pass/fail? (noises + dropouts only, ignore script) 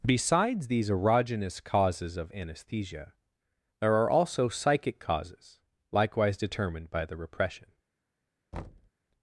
fail